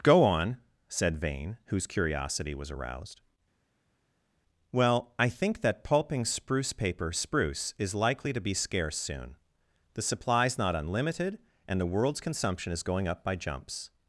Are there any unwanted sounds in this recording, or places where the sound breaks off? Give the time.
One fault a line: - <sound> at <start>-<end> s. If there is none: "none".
none